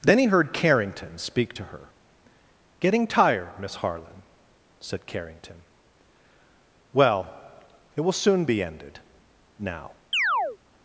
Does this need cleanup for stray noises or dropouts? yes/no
yes